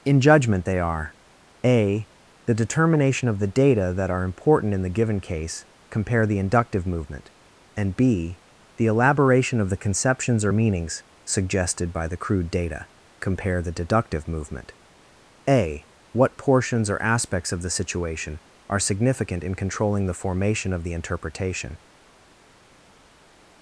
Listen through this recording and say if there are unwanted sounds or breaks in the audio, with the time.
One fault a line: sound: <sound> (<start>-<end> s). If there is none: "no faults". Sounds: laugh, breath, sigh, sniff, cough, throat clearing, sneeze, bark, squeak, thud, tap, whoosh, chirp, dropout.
no faults